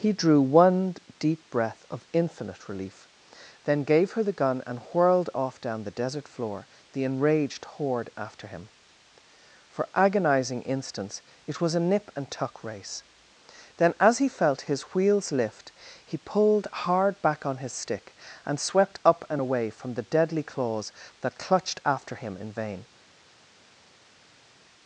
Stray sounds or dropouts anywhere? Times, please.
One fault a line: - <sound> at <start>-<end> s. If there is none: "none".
none